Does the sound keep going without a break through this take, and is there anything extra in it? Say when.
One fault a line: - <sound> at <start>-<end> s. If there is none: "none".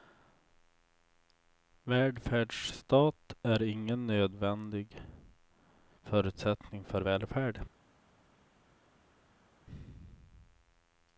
none